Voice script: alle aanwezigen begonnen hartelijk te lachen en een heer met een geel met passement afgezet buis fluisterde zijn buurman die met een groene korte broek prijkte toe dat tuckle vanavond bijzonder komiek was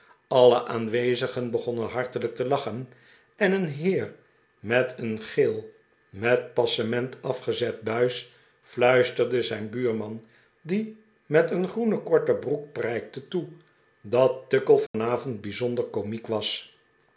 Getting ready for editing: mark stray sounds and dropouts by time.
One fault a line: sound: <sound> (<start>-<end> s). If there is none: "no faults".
sound: dropout (14.9-14.9 s)